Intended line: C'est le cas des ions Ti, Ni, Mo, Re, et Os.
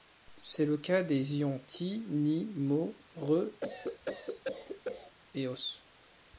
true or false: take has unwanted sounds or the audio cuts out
true